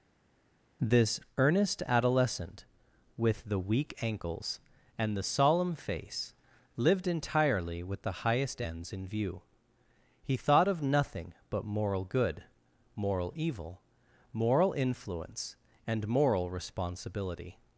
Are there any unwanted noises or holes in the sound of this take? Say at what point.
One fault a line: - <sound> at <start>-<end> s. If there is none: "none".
none